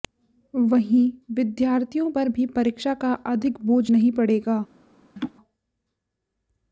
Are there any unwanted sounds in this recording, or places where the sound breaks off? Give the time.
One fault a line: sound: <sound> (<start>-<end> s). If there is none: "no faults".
sound: laugh (5.2-5.3 s)